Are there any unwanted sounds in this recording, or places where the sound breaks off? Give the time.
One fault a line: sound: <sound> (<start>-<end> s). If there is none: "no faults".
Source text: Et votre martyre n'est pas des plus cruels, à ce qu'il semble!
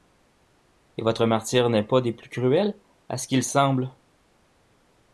no faults